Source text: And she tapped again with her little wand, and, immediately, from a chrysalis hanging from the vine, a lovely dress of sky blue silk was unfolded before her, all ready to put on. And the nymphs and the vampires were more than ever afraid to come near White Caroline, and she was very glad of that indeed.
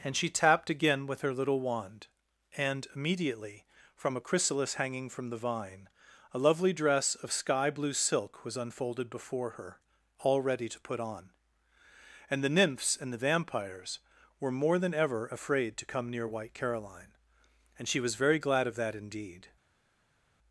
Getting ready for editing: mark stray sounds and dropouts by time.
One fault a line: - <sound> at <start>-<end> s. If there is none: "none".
none